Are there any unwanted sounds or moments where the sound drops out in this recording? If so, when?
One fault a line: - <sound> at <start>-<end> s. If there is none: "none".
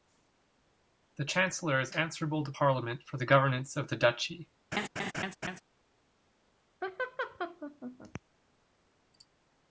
- laugh at 4.7-5.6 s
- laugh at 6.8-8.2 s